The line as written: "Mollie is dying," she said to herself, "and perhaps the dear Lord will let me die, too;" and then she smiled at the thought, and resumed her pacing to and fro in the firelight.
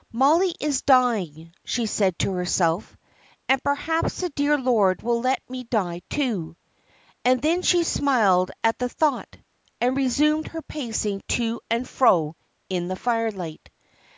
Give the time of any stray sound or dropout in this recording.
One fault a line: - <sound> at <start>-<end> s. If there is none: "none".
none